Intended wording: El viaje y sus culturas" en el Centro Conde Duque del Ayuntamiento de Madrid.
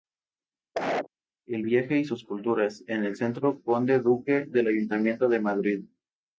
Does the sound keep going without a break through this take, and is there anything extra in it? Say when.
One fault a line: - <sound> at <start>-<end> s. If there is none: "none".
- cough at 0.7-1.1 s